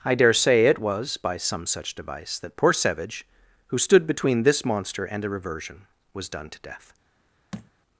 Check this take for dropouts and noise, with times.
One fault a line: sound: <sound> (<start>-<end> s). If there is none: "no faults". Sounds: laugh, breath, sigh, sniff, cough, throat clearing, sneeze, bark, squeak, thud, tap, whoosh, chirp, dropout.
sound: thud (7.5-7.7 s)